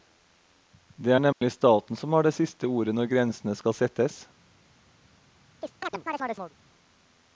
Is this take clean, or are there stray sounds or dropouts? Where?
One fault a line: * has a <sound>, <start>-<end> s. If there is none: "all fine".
* has a dropout, 1.3-1.4 s
* has a chirp, 5.6-6.5 s